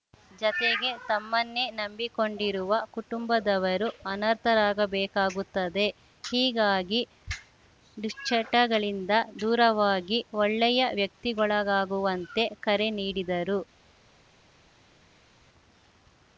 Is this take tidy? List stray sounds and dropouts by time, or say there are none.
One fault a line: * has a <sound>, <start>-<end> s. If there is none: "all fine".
all fine